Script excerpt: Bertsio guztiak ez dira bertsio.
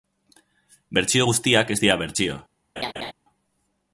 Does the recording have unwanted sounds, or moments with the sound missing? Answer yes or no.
yes